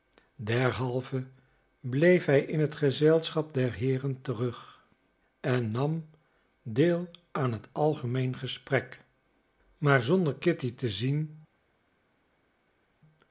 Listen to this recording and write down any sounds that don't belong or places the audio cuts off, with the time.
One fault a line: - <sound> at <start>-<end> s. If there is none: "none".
none